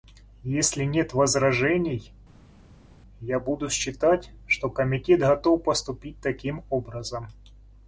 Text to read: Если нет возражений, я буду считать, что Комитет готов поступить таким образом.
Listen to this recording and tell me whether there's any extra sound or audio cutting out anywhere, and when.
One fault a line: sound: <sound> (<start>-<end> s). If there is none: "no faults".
no faults